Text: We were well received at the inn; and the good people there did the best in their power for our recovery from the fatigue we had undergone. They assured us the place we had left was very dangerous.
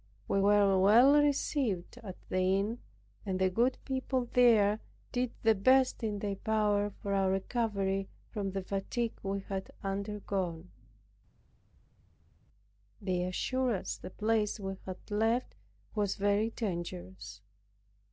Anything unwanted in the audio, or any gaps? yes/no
no